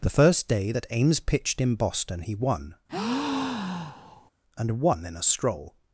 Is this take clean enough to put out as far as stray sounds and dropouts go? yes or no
no